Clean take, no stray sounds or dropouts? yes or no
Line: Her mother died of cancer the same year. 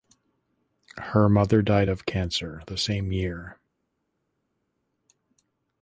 yes